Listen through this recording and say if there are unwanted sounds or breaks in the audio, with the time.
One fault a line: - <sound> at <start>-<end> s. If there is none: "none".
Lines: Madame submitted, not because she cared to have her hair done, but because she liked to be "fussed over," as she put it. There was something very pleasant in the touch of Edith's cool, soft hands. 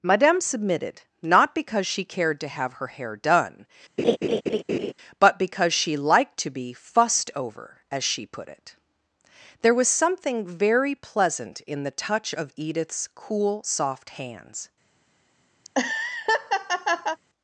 - laugh at 4.0-4.9 s
- laugh at 15.6-17.2 s